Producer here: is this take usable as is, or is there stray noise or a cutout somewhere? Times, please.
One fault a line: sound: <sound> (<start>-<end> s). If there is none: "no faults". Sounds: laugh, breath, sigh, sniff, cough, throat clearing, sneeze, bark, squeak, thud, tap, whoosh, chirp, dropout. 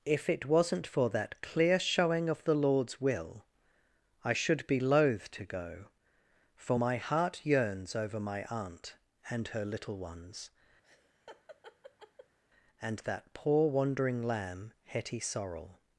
sound: laugh (10.8-12.4 s)